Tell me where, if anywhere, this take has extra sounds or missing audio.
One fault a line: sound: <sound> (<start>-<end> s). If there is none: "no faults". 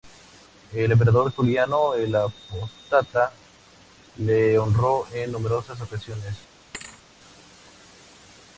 sound: thud (6.7-7.0 s)